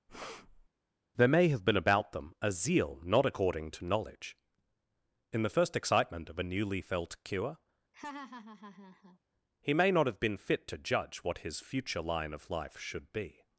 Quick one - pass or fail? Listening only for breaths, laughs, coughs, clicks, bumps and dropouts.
fail